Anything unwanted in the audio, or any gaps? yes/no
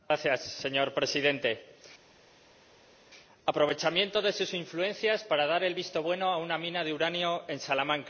no